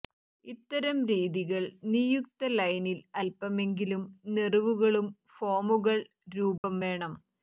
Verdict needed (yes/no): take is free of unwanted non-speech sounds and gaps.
no